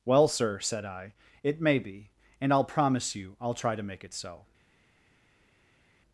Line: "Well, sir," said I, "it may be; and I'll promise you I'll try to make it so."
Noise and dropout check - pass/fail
pass